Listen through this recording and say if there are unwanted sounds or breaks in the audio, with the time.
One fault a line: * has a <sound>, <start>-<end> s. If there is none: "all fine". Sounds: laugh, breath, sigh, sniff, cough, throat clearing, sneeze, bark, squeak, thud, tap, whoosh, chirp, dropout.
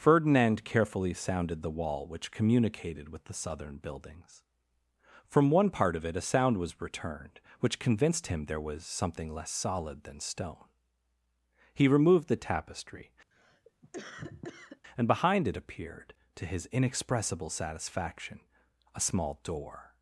* has a cough, 13.3-14.8 s